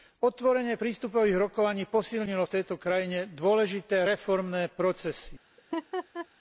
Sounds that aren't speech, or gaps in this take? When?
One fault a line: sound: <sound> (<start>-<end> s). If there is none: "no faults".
sound: laugh (5.6-6.3 s)